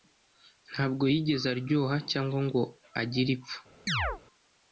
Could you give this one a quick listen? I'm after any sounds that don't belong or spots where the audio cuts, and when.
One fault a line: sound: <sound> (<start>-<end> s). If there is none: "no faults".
sound: chirp (3.9-4.2 s)